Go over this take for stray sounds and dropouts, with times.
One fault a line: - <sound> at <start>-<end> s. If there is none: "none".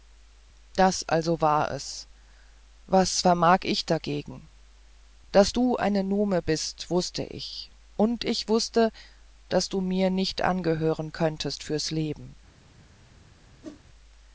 - whoosh at 13.6-13.8 s